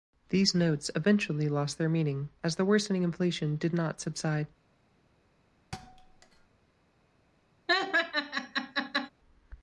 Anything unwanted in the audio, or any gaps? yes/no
yes